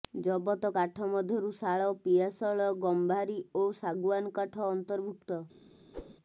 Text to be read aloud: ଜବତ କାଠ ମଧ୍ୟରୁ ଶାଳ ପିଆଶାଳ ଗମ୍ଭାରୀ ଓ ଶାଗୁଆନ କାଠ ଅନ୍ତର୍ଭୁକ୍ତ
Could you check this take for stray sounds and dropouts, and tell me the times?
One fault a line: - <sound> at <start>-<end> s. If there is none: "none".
- whoosh at 5.9-6.2 s